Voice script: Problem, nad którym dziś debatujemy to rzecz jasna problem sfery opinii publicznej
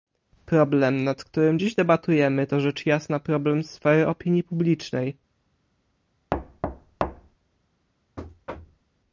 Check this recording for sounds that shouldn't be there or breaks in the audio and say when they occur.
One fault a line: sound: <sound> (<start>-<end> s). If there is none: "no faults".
sound: thud (6.3-7.4 s)
sound: thud (8.2-8.8 s)